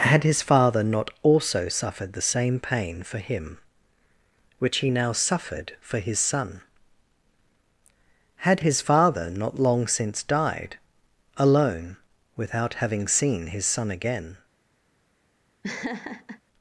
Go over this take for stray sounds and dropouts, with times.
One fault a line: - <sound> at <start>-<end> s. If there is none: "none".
- laugh at 15.6-16.4 s